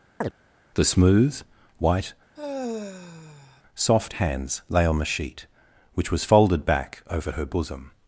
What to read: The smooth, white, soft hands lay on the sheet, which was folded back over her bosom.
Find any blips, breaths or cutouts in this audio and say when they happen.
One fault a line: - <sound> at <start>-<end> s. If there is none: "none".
- chirp at 0.2-0.3 s
- sigh at 2.4-3.6 s